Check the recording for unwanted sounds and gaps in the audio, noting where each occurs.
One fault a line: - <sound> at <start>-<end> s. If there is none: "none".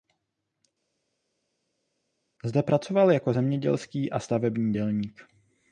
none